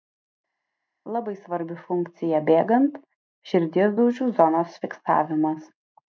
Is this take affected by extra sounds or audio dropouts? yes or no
no